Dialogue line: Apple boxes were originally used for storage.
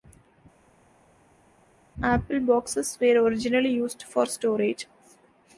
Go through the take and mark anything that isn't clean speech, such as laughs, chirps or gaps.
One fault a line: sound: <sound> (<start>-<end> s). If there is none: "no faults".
no faults